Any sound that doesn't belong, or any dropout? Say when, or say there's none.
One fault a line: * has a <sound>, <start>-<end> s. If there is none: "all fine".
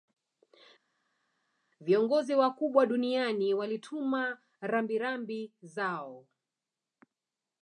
all fine